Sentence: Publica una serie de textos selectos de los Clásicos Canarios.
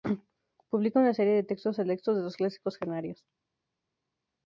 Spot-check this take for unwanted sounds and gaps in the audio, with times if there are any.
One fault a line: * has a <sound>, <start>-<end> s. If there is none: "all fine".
all fine